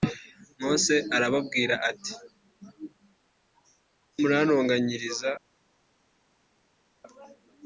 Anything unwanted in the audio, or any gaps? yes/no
no